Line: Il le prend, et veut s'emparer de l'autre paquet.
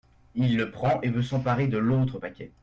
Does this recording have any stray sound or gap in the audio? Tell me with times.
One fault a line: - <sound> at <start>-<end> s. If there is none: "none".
none